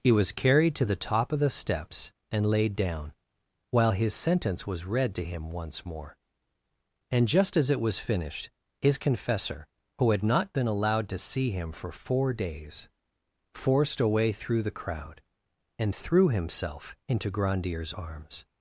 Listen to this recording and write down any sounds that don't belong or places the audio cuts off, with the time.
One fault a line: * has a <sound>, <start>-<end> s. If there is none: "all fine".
all fine